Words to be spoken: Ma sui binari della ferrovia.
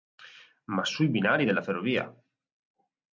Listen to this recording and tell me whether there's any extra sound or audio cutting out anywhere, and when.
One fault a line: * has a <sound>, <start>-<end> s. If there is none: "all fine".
all fine